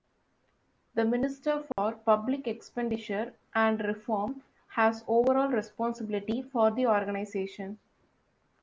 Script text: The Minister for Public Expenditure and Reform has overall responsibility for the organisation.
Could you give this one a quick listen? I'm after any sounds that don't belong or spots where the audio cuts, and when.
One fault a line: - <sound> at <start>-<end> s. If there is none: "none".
- dropout at 1.7-1.8 s